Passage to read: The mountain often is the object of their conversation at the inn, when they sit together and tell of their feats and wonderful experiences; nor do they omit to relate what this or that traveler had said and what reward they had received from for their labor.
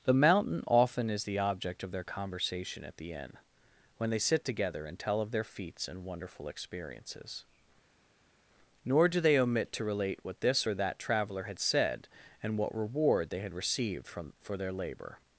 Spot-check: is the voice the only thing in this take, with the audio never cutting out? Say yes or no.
yes